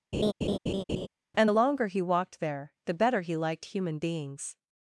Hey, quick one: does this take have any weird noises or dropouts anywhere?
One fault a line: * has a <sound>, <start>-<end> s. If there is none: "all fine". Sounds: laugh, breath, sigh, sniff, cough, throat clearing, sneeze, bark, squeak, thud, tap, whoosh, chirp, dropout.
* has a laugh, 0.1-1.1 s